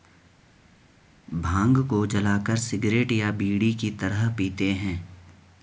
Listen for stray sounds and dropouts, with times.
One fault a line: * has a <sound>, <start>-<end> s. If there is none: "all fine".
all fine